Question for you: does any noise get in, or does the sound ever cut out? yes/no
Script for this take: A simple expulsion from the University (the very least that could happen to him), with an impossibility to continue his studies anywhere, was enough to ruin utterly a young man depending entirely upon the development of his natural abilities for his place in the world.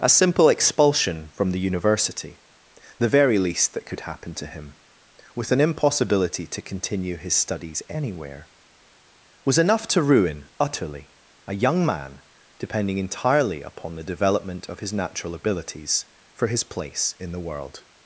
no